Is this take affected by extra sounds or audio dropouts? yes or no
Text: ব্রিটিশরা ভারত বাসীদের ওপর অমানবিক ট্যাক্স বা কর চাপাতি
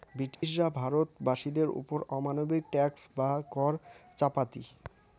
yes